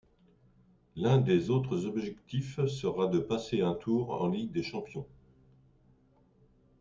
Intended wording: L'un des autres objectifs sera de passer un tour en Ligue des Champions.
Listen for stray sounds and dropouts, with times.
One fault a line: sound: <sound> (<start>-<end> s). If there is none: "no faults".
no faults